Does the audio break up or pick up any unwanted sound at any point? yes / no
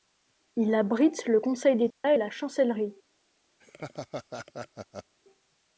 yes